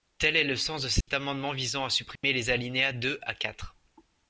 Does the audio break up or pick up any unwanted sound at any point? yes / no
yes